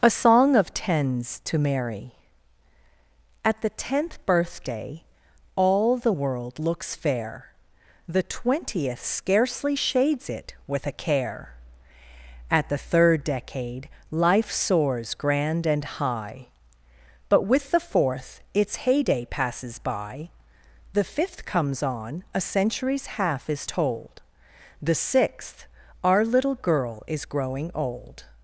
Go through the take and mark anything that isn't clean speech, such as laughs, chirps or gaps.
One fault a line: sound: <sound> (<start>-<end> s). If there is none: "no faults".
no faults